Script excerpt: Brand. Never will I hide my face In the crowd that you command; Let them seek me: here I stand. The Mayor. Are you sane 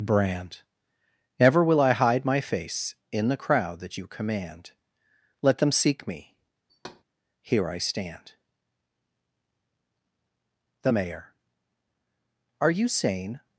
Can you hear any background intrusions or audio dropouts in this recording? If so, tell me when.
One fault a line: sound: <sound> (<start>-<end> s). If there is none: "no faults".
sound: thud (6.7-7.0 s)